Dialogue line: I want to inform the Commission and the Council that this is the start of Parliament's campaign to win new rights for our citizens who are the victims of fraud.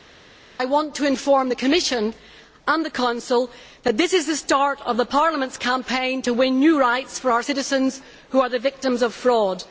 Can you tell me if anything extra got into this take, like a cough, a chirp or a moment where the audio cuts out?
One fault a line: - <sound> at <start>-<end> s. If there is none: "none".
none